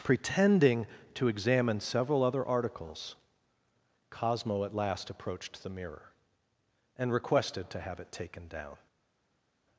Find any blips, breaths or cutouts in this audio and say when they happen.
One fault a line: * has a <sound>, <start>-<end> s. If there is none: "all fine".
all fine